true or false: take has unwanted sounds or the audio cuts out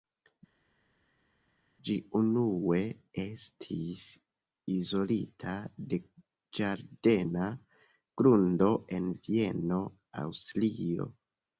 false